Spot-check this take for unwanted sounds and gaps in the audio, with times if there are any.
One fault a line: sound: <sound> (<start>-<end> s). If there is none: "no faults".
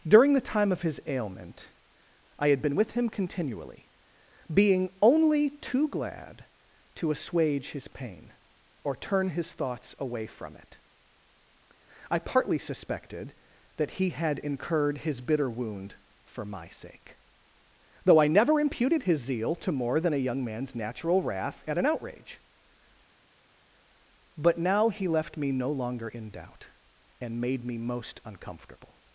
no faults